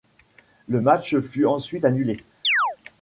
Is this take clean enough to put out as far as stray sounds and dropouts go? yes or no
no